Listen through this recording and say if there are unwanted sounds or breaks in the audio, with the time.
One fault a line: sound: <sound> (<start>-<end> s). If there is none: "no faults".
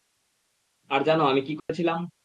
sound: dropout (1.6-1.7 s)